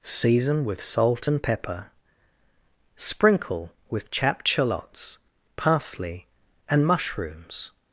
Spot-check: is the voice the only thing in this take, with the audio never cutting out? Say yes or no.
yes